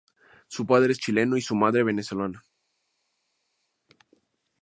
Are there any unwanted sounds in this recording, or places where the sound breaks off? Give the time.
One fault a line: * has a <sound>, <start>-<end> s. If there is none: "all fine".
all fine